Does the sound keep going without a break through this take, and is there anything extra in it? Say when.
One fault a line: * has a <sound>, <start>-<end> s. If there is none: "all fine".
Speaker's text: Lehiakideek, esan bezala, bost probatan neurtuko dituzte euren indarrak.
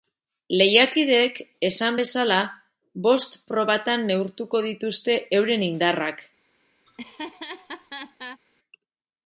* has a laugh, 6.9-8.4 s